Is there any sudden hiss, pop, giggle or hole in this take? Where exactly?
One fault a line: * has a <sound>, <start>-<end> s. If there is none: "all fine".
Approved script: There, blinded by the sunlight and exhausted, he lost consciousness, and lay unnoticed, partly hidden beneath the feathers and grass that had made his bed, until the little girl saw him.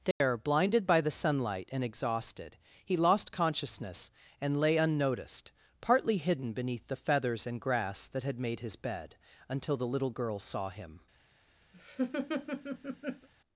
* has a dropout, 0.1-0.2 s
* has a laugh, 11.7-13.3 s